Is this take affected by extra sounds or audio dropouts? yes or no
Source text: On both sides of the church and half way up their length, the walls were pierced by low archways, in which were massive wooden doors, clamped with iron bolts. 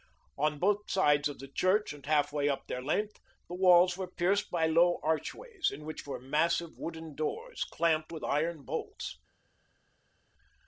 no